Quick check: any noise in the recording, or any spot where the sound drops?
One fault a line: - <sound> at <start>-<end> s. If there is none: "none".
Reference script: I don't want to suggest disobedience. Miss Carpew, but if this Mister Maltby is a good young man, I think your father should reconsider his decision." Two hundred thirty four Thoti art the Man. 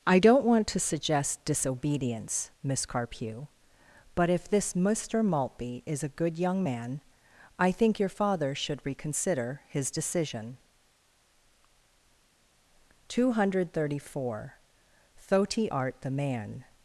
none